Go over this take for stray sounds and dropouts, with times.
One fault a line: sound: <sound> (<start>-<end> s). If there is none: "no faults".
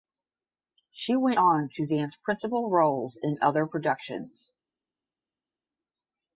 no faults